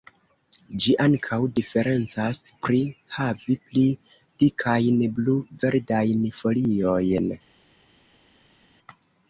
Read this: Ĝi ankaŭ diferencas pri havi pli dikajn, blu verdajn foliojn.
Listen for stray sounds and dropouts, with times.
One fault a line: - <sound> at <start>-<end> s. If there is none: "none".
none